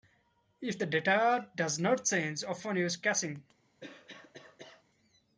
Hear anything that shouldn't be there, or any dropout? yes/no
yes